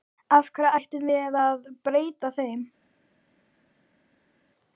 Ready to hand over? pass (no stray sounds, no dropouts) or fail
pass